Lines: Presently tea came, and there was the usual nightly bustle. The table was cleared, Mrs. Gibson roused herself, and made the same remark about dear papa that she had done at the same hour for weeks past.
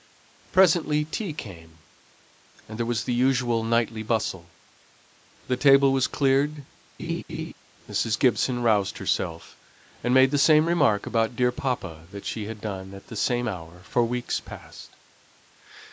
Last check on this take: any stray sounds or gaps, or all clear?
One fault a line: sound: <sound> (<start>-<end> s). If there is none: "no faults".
sound: laugh (7.0-7.5 s)